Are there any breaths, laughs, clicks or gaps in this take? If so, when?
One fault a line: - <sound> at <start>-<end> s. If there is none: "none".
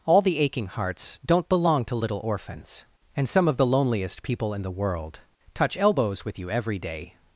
none